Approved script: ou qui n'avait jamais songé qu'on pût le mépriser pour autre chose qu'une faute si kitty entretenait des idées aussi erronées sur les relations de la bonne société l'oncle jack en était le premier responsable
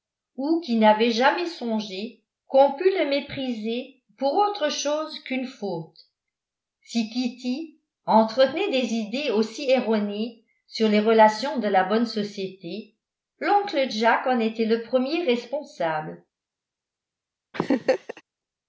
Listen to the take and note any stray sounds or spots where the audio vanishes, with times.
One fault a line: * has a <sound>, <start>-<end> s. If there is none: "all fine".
* has a laugh, 17.5-18.2 s